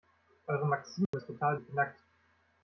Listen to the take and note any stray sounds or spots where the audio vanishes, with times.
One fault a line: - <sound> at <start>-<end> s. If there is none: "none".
- dropout at 1.1-1.1 s